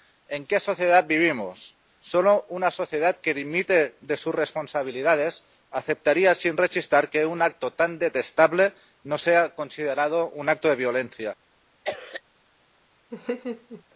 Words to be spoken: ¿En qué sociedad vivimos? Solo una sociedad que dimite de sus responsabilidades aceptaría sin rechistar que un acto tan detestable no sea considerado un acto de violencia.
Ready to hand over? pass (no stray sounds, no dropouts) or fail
fail